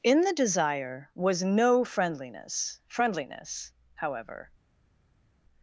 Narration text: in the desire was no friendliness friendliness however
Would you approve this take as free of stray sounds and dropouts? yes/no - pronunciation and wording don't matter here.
yes